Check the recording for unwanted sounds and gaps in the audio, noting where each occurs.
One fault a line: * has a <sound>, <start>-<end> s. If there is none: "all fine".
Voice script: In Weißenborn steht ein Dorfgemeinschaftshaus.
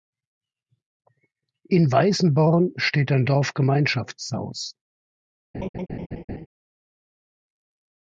* has a laugh, 5.5-6.5 s